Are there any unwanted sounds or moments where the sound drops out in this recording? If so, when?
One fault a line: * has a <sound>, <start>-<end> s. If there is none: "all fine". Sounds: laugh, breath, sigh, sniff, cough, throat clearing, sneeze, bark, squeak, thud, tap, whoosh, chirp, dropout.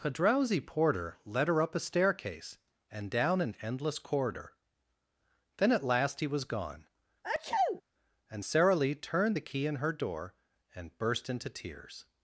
* has a sneeze, 7.2-7.8 s